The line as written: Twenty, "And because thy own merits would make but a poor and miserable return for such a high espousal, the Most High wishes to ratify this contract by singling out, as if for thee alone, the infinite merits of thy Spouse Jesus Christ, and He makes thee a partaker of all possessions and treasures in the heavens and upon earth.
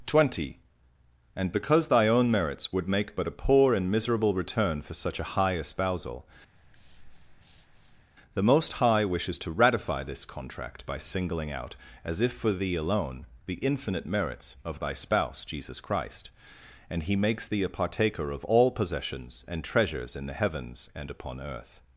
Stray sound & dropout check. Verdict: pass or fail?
fail